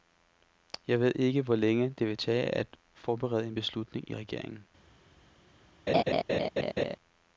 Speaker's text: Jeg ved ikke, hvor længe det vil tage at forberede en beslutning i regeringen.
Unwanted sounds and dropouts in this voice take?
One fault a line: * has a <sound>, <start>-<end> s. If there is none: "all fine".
* has a laugh, 5.9-7.0 s